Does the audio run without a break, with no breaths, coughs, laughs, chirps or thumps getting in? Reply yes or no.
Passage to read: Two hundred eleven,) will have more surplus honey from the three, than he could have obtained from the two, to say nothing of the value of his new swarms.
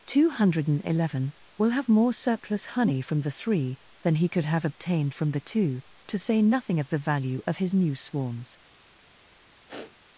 no